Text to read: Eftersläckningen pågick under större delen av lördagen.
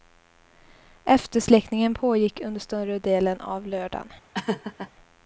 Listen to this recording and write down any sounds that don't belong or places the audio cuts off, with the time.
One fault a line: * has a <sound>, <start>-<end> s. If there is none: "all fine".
* has a laugh, 4.3-4.9 s